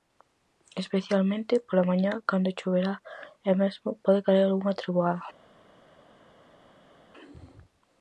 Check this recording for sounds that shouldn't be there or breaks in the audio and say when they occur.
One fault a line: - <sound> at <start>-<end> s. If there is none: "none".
none